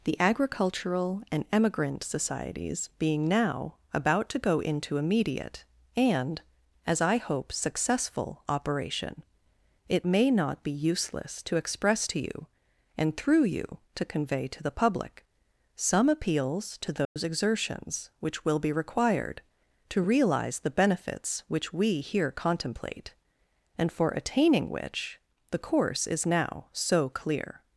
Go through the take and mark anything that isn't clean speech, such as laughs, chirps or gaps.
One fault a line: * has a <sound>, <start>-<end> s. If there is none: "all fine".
* has a dropout, 17.0-17.2 s